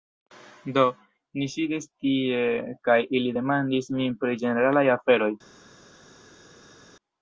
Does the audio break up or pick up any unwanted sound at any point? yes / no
no